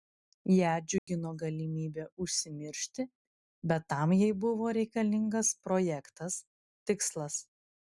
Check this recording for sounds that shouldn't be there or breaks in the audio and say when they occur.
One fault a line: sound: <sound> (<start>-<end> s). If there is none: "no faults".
sound: dropout (1.0-1.1 s)